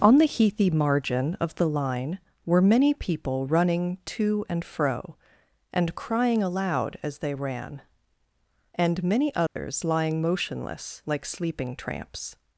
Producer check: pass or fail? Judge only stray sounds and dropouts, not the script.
fail